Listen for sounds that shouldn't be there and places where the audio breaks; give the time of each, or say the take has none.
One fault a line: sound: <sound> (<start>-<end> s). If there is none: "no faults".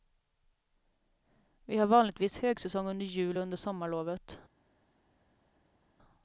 no faults